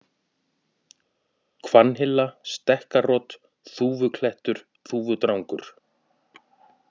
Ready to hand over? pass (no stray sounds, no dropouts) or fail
pass